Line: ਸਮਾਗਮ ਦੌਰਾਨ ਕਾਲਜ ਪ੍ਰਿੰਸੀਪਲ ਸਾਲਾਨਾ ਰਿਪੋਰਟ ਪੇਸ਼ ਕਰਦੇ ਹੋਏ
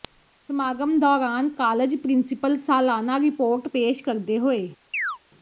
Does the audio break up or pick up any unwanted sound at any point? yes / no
yes